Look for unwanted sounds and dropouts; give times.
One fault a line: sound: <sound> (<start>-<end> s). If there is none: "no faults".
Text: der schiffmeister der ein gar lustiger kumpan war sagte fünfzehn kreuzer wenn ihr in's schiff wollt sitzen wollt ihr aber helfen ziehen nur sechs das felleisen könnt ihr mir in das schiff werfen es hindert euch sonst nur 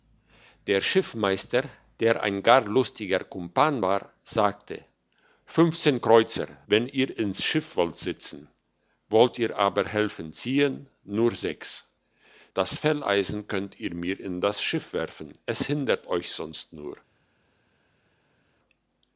no faults